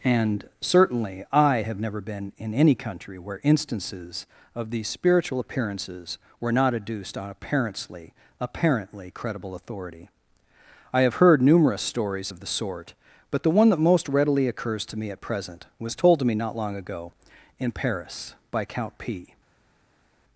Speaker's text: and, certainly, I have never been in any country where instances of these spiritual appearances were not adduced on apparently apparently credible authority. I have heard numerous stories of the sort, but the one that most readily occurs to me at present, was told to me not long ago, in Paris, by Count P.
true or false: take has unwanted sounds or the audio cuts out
false